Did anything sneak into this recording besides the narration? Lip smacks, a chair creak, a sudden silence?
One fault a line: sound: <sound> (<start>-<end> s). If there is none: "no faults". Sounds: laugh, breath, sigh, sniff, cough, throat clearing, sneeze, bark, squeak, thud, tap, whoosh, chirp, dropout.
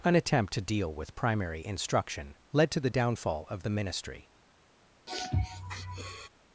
sound: sniff (5.1-6.3 s)